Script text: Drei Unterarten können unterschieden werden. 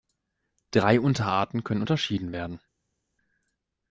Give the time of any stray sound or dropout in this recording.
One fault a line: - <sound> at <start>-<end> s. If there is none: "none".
none